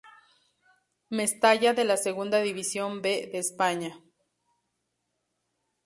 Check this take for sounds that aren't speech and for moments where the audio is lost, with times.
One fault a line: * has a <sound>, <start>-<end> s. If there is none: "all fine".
all fine